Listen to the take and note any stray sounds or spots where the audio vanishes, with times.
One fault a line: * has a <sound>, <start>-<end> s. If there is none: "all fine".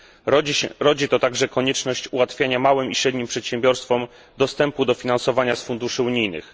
all fine